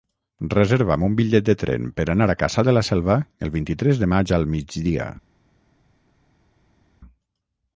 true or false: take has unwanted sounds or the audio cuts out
false